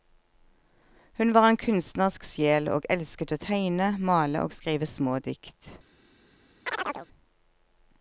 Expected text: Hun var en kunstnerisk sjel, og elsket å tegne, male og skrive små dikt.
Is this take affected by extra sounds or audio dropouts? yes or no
yes